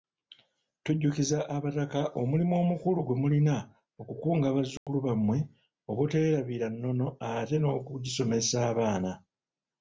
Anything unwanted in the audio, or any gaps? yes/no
yes